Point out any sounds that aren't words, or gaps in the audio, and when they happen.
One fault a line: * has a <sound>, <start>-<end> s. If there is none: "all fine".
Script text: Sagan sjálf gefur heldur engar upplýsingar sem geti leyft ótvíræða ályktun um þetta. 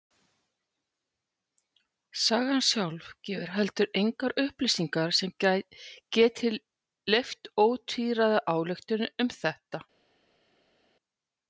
all fine